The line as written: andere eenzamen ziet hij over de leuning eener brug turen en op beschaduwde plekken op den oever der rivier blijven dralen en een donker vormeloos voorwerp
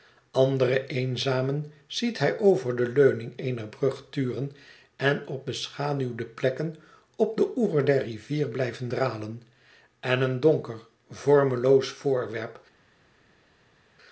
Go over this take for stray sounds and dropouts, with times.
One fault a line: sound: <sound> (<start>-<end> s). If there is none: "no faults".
no faults